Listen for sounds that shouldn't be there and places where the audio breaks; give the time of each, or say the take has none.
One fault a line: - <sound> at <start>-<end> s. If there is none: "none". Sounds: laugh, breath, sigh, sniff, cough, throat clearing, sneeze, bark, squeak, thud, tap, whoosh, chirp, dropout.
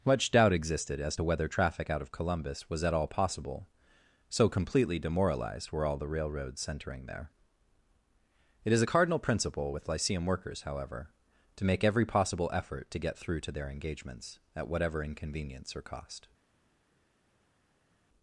none